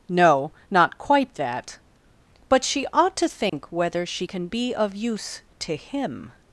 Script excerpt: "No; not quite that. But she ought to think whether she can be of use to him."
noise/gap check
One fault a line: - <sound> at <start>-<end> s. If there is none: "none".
- dropout at 3.5-3.5 s